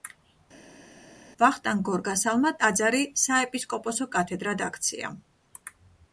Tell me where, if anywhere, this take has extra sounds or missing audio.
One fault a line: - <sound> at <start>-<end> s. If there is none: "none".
none